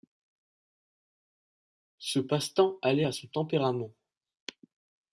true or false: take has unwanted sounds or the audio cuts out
false